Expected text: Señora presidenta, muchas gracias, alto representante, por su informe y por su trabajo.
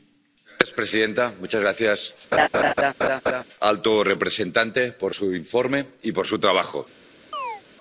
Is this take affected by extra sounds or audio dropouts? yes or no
yes